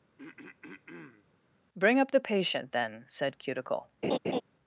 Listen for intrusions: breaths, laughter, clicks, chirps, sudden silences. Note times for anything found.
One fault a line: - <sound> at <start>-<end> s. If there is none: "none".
- throat clearing at 0.2-1.3 s
- laugh at 4.0-4.4 s